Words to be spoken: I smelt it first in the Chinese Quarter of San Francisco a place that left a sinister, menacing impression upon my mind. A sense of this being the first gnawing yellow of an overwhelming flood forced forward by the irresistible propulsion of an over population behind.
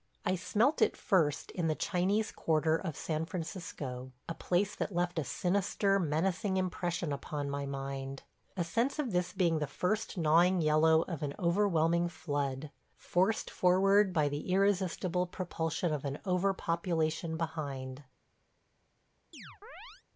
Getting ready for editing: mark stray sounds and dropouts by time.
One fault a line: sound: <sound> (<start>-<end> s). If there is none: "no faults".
sound: chirp (19.3-20.0 s)